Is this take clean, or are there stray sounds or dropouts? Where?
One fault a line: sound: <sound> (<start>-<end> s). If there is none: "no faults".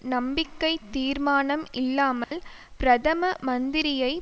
sound: dropout (2.2-2.3 s)